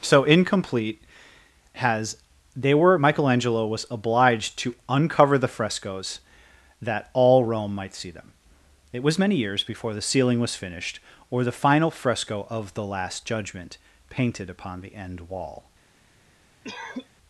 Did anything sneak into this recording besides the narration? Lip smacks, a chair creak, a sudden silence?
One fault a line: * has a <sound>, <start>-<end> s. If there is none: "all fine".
* has a cough, 16.6-17.1 s